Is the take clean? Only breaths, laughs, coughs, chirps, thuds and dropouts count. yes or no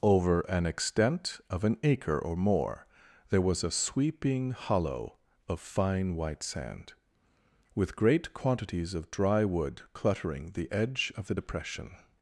yes